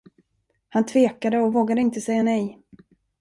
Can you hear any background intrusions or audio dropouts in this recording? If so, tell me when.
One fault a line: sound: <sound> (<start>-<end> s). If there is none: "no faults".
no faults